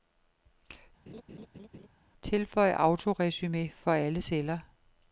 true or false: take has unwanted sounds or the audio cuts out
true